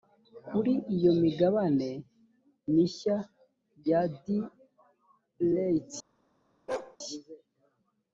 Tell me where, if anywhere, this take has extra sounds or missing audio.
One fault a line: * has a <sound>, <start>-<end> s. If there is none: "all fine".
* has a bark, 6.7-7.0 s